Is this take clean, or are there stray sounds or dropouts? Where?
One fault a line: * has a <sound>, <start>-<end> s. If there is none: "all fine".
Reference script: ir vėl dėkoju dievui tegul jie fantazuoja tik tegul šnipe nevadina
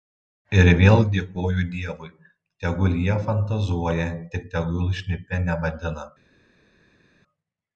all fine